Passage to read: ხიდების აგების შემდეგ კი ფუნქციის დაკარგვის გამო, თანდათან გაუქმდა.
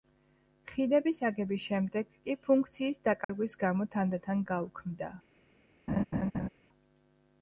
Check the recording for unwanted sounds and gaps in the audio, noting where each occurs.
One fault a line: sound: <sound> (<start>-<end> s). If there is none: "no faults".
sound: dropout (3.2-3.3 s)
sound: laugh (5.9-6.5 s)